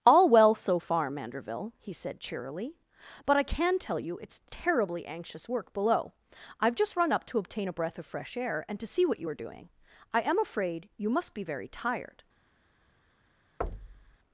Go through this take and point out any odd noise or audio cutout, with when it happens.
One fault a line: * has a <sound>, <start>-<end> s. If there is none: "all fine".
* has a thud, 13.6-14.2 s